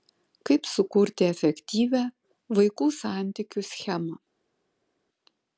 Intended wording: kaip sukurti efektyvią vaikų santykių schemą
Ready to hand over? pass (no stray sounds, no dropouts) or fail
pass